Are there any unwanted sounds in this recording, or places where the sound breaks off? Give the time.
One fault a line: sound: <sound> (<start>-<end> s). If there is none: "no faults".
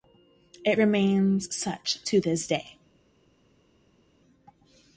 no faults